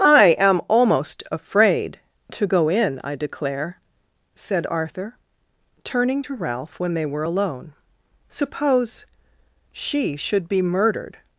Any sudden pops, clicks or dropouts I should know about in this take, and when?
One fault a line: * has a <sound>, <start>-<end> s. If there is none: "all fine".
all fine